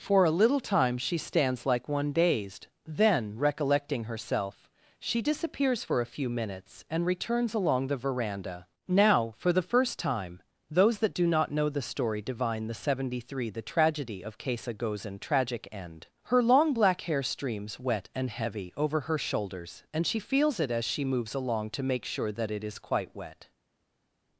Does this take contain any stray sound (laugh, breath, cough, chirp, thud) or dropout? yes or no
no